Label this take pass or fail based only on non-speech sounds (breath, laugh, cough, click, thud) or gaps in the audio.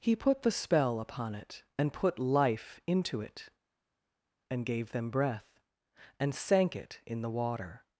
pass